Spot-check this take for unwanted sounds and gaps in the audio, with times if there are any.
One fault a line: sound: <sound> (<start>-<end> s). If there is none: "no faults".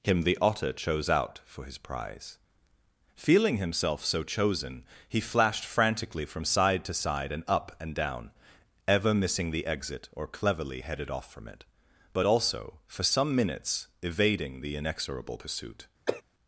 sound: cough (16.1-16.2 s)